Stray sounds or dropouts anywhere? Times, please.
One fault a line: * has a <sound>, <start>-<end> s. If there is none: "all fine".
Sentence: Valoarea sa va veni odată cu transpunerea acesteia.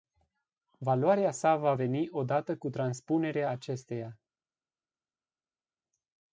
all fine